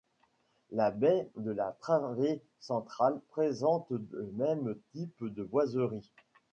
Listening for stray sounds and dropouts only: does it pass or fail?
pass